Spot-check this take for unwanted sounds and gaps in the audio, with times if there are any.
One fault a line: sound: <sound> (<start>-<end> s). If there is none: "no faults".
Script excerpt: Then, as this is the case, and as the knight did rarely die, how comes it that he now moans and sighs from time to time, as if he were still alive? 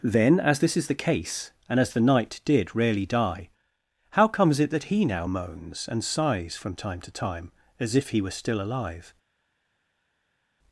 no faults